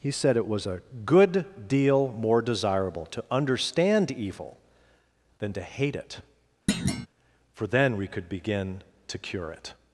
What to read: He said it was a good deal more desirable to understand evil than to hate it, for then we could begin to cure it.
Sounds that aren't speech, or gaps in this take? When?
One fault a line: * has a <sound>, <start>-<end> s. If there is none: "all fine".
* has a thud, 6.7-7.1 s